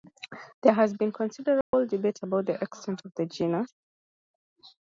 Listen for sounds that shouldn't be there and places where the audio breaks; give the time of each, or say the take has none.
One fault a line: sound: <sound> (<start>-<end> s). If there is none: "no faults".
sound: dropout (1.6-1.7 s)